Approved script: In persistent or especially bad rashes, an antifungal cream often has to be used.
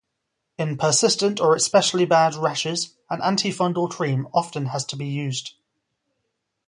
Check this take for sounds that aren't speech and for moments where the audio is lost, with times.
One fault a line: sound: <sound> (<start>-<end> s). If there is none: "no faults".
no faults